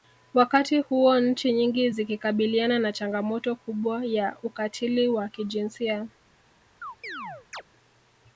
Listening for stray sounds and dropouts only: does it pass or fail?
fail